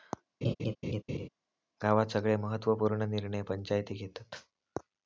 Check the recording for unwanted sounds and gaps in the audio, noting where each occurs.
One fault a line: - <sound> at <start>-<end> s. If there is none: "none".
- laugh at 0.4-1.3 s